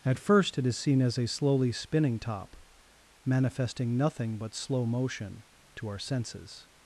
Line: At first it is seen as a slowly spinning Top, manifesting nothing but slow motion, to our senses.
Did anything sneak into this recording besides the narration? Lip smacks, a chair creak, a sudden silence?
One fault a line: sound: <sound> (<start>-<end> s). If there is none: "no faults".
no faults